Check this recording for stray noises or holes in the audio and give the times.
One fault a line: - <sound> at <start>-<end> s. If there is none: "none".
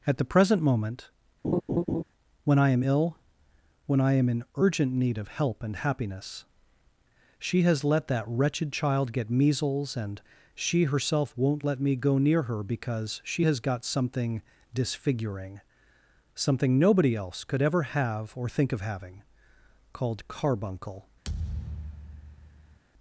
- laugh at 1.4-2.0 s
- thud at 21.2-22.8 s